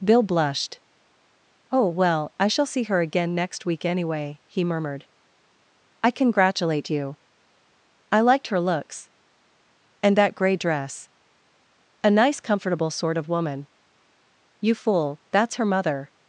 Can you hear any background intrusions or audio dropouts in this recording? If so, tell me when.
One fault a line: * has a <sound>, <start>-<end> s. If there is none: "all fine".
all fine